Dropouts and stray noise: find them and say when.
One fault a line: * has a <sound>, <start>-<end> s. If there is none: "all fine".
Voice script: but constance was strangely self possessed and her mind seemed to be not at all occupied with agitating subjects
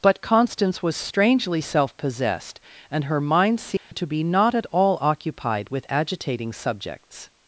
* has a dropout, 3.8-3.9 s